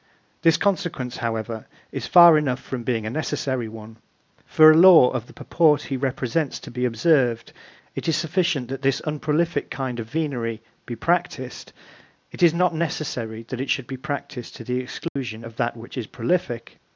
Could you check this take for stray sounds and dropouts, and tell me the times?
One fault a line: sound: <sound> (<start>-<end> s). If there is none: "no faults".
sound: dropout (15.1-15.2 s)